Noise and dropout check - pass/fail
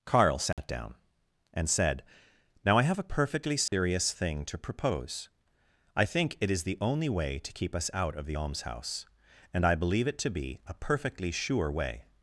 fail